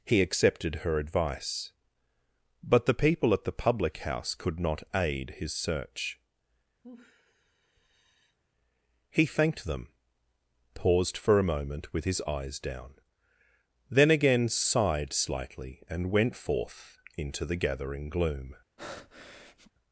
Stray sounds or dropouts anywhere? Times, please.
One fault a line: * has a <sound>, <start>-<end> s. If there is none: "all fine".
* has a sigh, 6.8-8.4 s
* has a breath, 18.8-19.7 s